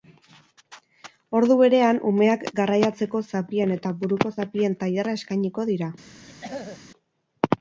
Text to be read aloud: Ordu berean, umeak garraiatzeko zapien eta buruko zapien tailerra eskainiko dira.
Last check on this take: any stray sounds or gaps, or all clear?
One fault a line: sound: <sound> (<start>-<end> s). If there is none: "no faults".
sound: throat clearing (6.3-6.8 s)